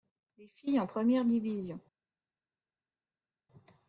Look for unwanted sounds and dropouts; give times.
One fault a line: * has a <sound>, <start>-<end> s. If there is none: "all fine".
all fine